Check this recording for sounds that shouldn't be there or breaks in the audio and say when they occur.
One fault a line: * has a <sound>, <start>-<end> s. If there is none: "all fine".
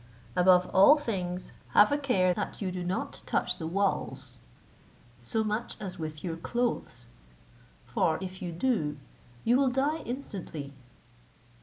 all fine